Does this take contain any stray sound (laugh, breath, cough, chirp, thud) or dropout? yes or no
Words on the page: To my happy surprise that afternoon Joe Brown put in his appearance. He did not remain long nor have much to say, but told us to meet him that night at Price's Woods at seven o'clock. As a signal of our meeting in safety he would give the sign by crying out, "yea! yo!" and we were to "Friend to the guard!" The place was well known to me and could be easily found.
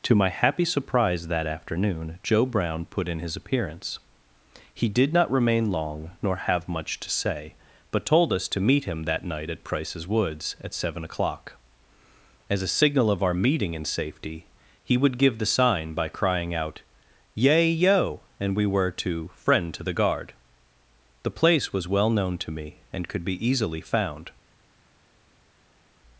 no